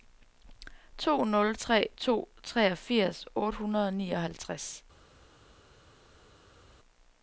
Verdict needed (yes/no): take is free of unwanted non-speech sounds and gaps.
yes